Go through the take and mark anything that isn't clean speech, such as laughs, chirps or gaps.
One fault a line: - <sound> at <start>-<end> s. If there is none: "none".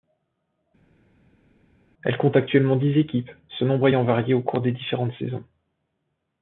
none